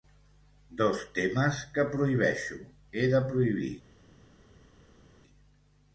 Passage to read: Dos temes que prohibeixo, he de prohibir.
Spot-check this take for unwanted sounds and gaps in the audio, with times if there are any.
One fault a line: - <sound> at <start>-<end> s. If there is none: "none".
none